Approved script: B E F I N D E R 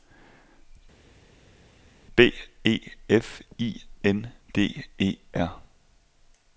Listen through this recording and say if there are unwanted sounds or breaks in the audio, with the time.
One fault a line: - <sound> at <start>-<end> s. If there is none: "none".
none